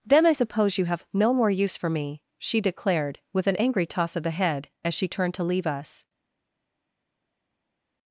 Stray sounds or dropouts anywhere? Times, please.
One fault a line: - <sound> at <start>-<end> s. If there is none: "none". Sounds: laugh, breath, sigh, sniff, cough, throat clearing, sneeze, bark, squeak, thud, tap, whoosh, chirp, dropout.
none